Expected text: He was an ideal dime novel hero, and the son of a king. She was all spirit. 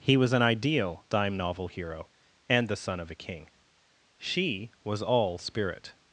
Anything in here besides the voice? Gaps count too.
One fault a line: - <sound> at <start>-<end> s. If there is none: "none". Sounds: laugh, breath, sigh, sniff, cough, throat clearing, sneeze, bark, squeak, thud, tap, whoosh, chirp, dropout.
none